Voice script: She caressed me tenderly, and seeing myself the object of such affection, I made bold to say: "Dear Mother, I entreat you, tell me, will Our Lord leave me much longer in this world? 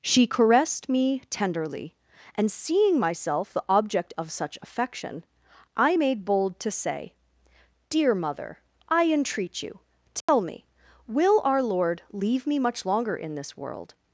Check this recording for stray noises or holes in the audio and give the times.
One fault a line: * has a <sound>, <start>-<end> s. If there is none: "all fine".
* has a dropout, 10.2-10.3 s